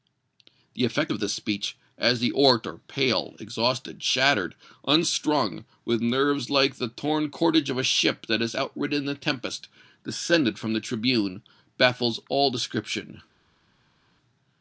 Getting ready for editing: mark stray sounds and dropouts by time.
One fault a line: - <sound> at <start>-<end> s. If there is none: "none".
none